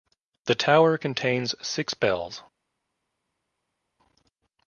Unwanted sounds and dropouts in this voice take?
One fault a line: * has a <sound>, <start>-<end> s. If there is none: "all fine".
all fine